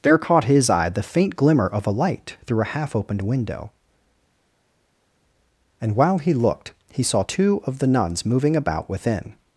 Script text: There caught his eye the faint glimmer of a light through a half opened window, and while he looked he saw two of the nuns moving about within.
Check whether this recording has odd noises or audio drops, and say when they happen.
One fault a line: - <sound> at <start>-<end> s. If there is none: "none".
none